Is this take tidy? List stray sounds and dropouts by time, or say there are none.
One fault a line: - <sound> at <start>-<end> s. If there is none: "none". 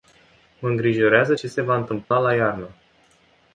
- dropout at 2.0-2.1 s